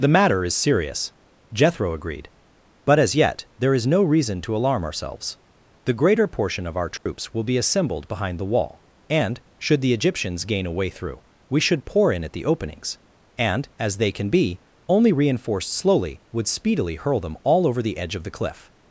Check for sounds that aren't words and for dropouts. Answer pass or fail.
fail